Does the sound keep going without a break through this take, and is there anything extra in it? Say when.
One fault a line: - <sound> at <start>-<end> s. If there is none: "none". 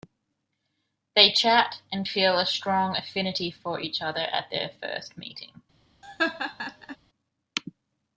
- laugh at 6.0-7.0 s